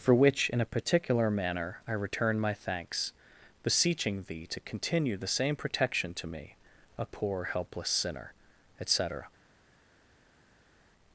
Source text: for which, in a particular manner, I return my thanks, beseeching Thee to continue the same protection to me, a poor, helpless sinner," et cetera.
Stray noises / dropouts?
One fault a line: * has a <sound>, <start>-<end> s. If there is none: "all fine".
all fine